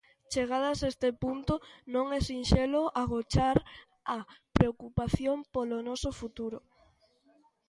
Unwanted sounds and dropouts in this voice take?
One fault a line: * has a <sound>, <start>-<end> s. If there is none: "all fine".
all fine